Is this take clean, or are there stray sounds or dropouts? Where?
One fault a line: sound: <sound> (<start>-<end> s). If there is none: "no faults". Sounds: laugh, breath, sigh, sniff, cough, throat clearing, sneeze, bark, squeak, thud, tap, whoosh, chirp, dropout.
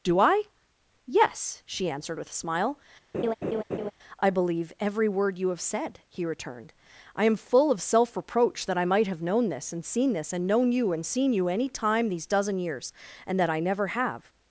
sound: laugh (3.1-3.9 s)